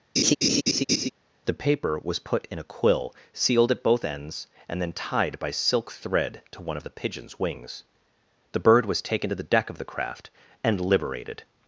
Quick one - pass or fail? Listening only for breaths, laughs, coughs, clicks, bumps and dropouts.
fail